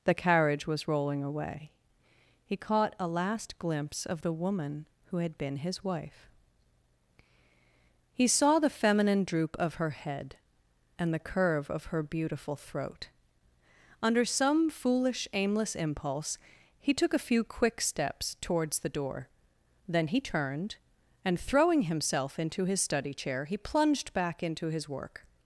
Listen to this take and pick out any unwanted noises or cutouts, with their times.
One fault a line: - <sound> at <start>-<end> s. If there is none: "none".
none